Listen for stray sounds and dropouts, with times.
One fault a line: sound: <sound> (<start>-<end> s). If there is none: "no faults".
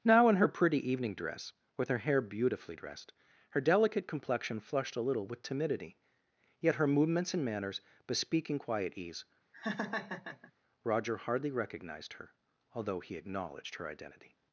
sound: laugh (9.5-10.5 s)